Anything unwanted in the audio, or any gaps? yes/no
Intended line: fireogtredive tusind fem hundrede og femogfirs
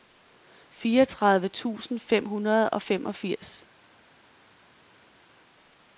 no